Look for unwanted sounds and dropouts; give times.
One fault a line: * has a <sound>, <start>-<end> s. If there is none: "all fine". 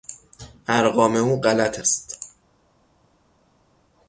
all fine